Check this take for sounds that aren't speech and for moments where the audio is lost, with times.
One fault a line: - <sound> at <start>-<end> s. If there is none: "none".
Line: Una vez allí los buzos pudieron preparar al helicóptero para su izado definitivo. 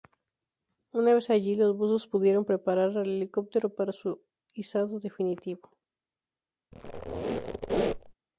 - squeak at 6.7-8.1 s